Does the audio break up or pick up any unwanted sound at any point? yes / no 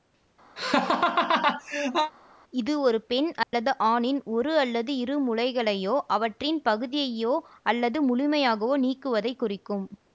yes